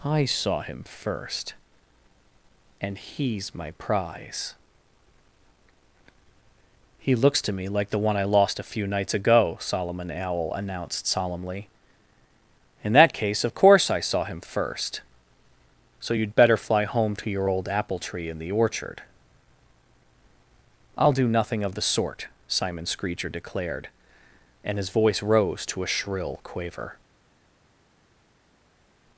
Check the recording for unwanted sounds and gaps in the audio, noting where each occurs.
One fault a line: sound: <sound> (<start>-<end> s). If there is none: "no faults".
no faults